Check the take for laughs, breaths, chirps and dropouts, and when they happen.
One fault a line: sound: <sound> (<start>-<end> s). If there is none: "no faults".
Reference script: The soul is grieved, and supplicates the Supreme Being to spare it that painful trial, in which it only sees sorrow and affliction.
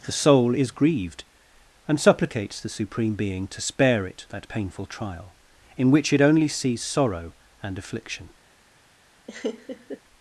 sound: laugh (9.3-10.0 s)